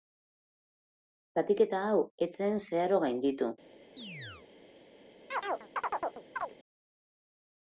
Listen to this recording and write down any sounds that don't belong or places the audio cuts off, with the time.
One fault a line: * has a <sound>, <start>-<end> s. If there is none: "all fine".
* has a chirp, 4.0-4.5 s
* has a chirp, 5.3-6.5 s